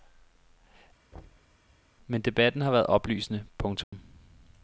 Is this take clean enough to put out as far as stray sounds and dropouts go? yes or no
no